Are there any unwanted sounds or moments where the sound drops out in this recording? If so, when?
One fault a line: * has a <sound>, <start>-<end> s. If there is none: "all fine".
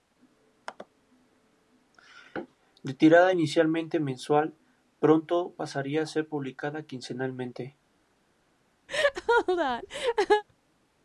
* has a laugh, 8.9-10.4 s